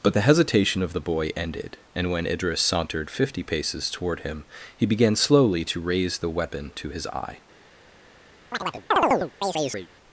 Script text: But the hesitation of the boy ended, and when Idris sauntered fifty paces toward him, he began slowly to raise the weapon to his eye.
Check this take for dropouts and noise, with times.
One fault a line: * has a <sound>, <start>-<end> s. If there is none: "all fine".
* has a chirp, 8.5-9.9 s